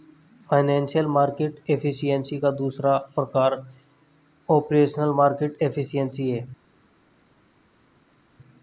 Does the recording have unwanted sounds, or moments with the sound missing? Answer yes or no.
no